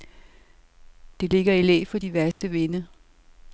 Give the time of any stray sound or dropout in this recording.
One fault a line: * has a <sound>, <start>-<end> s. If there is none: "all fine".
* has a dropout, 2.3-2.4 s